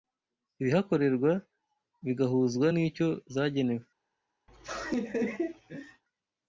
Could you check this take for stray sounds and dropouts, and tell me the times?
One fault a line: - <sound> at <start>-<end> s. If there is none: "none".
- laugh at 4.5-6.0 s